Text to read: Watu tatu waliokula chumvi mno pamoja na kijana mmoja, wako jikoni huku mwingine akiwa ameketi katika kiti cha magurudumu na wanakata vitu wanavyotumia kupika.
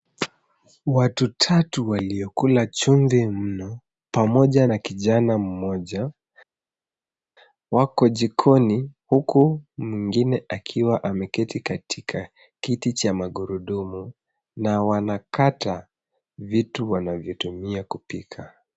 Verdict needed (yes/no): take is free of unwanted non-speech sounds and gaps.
yes